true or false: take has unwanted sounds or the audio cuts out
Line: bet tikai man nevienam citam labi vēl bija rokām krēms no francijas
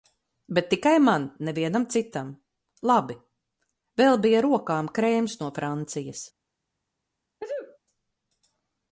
true